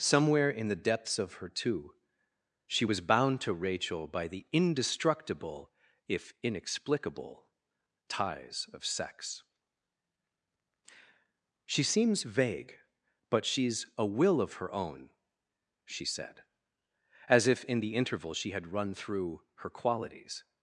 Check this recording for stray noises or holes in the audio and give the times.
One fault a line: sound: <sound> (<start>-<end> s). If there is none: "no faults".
no faults